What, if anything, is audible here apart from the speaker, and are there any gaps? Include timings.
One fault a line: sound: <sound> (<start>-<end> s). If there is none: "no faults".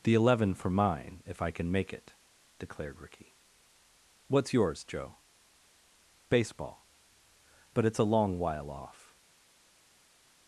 no faults